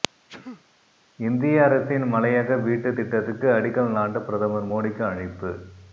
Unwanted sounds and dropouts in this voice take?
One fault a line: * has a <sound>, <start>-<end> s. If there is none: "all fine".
* has a sneeze, 0.3-0.6 s